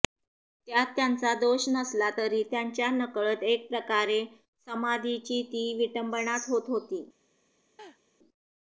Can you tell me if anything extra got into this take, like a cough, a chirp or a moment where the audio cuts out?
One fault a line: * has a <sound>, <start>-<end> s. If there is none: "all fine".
* has a laugh, 7.8-8.0 s